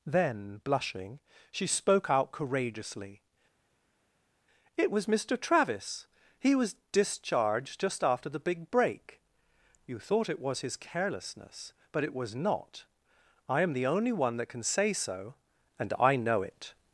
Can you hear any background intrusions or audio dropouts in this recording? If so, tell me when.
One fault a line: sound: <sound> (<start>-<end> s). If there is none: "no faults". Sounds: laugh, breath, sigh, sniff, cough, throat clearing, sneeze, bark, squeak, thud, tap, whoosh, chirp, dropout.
no faults